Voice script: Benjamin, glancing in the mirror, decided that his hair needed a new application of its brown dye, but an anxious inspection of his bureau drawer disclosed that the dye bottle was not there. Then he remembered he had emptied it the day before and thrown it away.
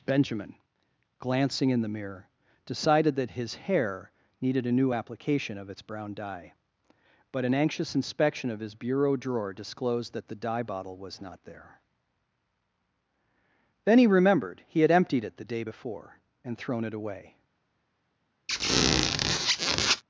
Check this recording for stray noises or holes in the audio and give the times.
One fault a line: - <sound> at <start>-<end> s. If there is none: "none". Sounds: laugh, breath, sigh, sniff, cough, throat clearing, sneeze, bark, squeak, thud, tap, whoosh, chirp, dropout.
- squeak at 18.5-20.0 s